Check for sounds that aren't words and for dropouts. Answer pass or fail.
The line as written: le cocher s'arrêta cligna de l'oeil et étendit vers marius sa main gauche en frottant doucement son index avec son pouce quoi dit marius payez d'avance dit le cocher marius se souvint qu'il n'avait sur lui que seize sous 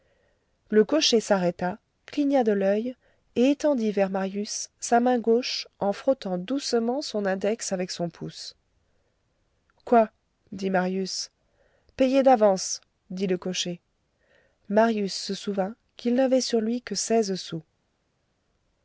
pass